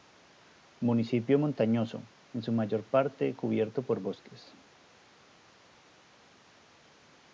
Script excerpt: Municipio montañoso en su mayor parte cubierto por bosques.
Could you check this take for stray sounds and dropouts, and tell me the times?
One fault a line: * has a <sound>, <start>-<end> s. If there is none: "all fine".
all fine